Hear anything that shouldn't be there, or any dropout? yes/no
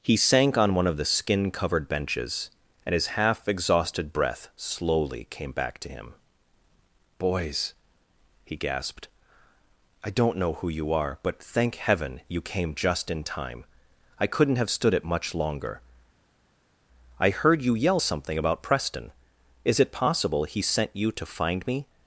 no